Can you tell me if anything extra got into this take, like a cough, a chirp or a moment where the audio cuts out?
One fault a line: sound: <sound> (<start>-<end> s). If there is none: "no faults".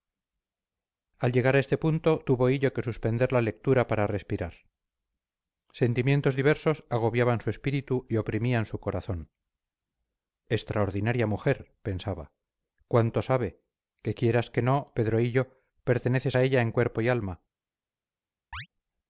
sound: chirp (18.5-18.7 s)